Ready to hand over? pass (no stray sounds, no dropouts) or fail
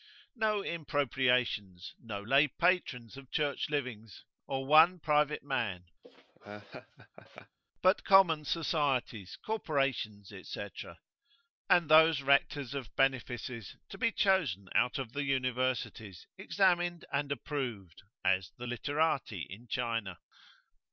fail